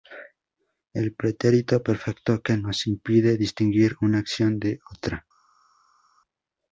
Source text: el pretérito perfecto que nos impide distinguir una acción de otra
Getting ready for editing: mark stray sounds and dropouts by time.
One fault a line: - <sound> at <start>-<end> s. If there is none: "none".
none